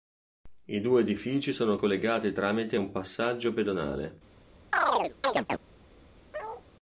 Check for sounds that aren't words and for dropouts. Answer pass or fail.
fail